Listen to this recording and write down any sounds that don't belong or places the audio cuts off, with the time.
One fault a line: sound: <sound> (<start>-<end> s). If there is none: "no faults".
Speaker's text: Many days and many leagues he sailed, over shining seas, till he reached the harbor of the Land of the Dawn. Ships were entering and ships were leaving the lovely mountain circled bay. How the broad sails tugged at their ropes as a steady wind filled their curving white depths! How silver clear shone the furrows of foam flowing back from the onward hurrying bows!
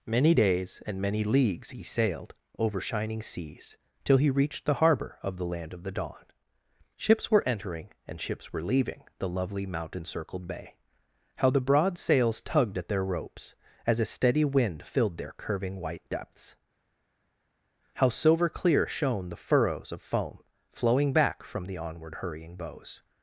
no faults